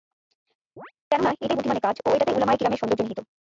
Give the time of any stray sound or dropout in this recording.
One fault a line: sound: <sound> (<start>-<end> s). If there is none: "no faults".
sound: chirp (0.8-0.9 s)